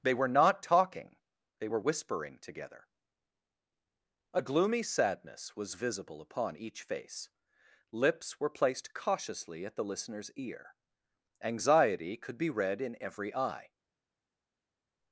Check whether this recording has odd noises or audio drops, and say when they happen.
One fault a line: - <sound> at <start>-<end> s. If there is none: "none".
none